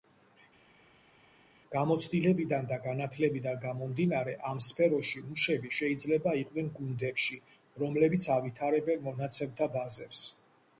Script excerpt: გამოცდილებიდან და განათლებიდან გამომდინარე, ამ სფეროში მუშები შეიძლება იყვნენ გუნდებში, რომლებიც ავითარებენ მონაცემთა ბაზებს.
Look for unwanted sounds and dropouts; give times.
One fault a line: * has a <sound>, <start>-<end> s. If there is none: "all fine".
all fine